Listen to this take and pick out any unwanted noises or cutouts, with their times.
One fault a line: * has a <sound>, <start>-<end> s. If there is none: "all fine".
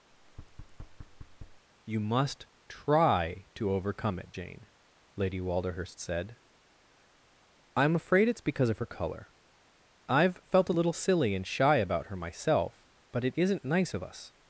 * has a thud, 0.1-1.7 s